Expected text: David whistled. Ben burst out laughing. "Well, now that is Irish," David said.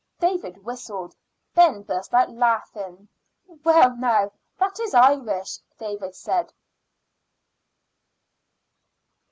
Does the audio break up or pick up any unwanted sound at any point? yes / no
no